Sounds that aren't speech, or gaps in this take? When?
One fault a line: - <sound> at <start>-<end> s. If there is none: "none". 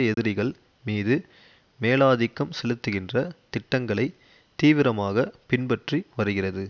- dropout at 0.1-0.2 s